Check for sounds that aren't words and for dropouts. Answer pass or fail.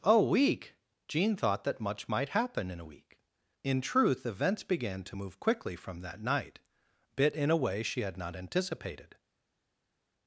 pass